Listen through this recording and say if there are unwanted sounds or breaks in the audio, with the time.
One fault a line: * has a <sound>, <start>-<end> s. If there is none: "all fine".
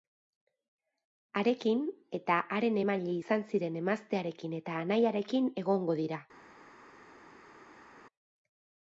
all fine